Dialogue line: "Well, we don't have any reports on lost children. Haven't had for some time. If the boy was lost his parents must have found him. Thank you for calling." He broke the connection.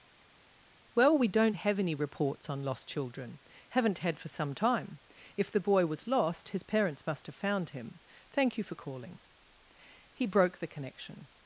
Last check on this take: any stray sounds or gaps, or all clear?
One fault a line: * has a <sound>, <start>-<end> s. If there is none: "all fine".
all fine